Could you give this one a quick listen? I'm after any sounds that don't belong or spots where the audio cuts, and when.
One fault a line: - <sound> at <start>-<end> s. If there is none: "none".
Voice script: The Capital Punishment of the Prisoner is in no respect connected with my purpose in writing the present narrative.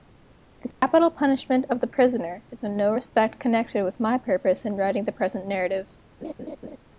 - dropout at 0.7-0.8 s
- laugh at 6.2-6.8 s